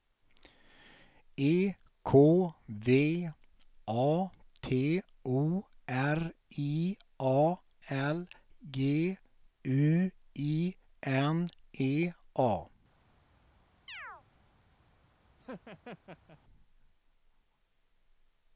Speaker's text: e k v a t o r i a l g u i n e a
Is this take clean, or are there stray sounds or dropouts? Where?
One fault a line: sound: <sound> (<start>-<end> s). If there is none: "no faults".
sound: chirp (13.9-14.2 s)
sound: laugh (15.4-16.4 s)